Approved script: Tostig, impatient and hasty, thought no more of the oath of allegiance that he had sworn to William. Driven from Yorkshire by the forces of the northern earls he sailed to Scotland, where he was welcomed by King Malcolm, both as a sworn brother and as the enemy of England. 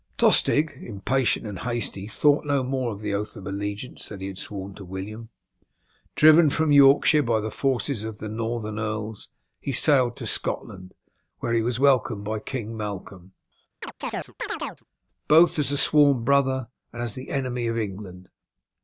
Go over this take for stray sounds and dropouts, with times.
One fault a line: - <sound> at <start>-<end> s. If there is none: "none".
- chirp at 13.8-14.8 s